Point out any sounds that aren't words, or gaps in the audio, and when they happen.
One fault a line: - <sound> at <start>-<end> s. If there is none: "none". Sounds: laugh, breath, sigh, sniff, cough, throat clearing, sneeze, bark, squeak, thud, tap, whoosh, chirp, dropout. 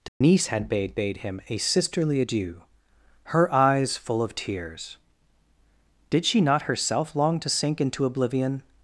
- dropout at 0.1-0.2 s